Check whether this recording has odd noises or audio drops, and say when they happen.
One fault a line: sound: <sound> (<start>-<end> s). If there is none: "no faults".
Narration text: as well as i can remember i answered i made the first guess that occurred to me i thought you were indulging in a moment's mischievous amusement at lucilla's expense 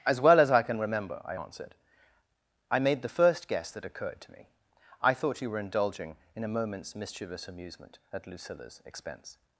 no faults